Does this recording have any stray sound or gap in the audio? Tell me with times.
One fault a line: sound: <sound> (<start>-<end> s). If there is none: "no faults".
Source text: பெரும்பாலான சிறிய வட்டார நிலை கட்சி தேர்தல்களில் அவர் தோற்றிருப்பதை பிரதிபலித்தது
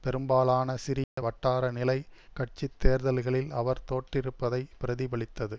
sound: dropout (1.0-1.2 s)